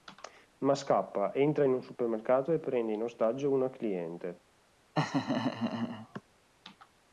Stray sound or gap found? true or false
true